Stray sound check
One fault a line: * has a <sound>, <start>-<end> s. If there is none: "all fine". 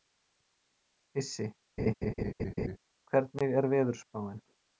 * has a laugh, 1.8-2.8 s